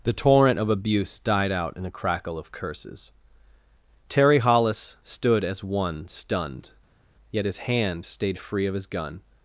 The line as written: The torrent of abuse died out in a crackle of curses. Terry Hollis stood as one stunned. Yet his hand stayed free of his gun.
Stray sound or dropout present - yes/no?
no